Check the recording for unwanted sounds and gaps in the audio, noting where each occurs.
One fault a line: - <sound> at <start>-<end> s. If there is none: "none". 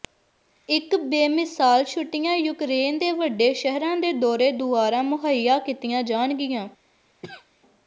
- cough at 7.2-7.5 s